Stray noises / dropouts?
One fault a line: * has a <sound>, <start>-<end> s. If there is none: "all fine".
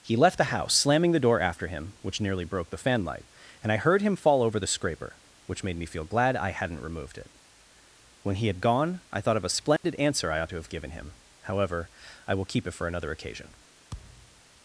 * has a dropout, 9.8-9.8 s
* has a thud, 13.9-14.4 s